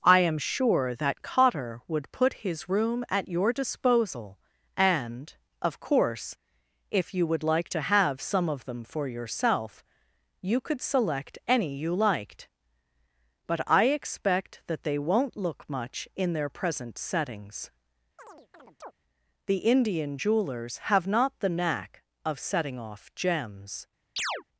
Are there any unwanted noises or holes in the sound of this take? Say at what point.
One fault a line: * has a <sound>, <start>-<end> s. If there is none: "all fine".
* has a chirp, 18.2-18.9 s
* has a chirp, 24.2-24.4 s